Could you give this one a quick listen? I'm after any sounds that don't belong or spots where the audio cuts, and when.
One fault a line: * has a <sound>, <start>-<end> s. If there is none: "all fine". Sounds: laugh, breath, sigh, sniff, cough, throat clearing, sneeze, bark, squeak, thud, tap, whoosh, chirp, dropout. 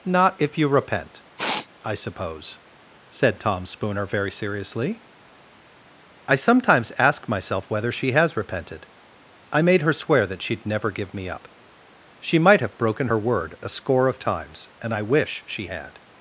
* has a sniff, 1.4-1.7 s